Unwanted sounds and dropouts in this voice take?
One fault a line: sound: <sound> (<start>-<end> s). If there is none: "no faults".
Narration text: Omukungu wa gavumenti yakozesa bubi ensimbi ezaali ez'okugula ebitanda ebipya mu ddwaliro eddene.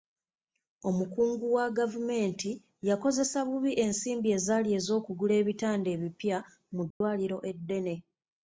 sound: dropout (6.9-7.0 s)